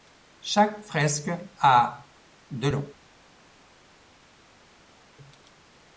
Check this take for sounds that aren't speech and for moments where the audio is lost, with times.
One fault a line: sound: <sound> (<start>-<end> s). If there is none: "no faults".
no faults